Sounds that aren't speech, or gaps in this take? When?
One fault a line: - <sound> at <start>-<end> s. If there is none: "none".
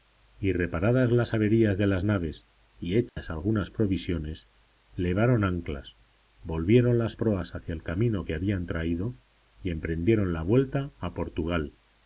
- dropout at 3.1-3.2 s